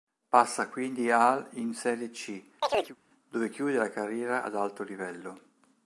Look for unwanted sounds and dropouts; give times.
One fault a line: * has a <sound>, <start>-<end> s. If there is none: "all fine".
* has a chirp, 2.6-3.0 s